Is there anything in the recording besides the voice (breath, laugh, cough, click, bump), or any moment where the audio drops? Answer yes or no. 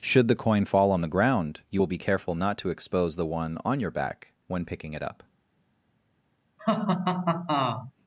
yes